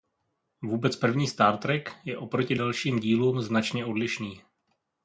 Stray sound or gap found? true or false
false